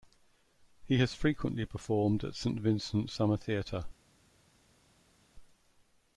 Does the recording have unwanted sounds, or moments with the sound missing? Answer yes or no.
no